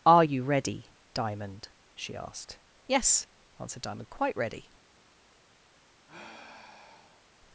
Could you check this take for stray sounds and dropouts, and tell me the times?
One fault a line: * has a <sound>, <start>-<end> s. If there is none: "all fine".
* has a sigh, 6.1-7.3 s